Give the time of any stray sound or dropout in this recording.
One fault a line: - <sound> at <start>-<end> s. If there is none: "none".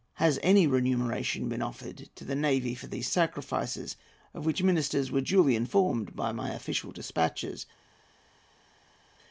none